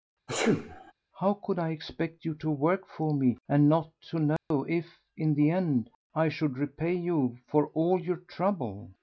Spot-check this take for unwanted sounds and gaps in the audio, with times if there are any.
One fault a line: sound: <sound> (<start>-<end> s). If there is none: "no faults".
sound: sneeze (0.3-0.9 s)
sound: dropout (4.4-4.5 s)